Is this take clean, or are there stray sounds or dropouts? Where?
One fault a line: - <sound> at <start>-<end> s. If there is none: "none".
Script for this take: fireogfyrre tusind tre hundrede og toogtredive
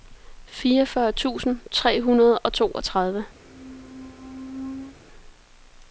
- squeak at 3.4-5.0 s